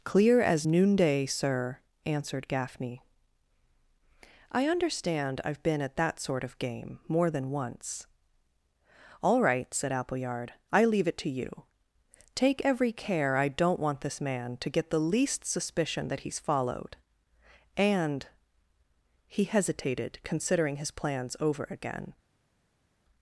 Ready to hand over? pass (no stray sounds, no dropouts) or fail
pass